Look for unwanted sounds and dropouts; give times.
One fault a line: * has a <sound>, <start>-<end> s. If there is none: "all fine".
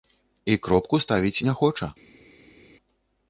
all fine